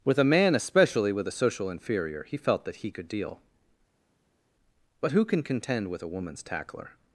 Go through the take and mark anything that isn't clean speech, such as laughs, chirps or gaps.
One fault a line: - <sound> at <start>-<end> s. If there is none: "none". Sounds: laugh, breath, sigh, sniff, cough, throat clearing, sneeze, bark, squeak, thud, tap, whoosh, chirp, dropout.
none